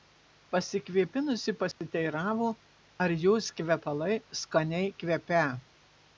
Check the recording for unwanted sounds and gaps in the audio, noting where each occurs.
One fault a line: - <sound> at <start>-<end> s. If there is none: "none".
- dropout at 1.7-1.8 s